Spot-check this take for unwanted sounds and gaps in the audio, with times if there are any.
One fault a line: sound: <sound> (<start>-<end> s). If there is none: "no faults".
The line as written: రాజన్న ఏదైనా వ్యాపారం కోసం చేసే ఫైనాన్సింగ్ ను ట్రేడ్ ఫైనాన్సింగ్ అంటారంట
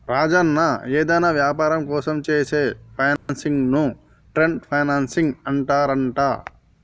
sound: dropout (3.2-3.3 s)